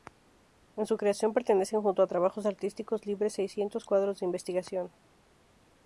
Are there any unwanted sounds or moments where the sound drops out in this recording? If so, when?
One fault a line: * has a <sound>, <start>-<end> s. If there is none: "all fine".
all fine